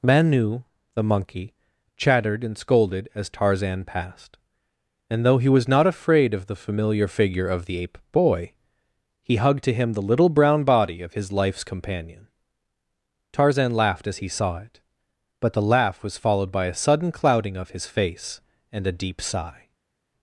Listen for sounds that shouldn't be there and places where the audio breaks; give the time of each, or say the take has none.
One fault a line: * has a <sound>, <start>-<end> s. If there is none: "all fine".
all fine